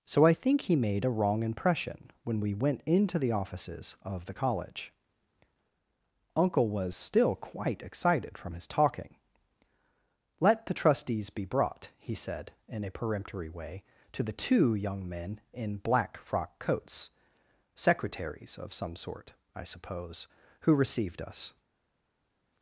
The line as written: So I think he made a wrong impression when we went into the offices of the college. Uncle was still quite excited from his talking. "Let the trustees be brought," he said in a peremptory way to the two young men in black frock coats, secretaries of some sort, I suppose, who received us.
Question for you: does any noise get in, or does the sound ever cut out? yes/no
no